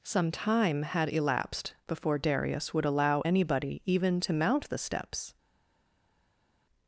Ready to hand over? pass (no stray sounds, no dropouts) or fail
pass